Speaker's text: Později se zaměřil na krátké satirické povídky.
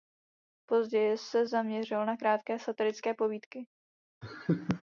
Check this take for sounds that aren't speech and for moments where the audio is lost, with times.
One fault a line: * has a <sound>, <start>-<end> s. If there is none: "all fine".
* has a laugh, 4.2-4.8 s